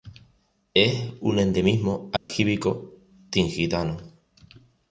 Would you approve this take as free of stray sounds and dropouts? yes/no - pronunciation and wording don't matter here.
no